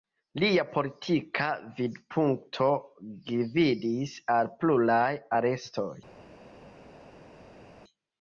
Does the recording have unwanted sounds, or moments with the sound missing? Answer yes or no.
no